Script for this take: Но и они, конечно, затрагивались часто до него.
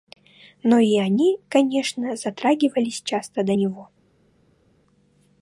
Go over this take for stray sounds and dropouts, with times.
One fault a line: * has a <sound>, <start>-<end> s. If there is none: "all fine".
all fine